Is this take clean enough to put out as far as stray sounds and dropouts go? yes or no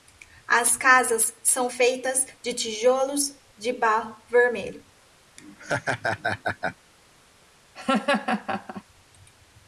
no